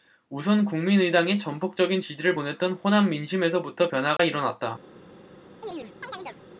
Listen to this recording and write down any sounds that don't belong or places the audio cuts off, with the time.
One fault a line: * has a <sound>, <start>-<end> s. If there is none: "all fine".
* has a dropout, 4.2-4.2 s
* has a chirp, 5.6-6.4 s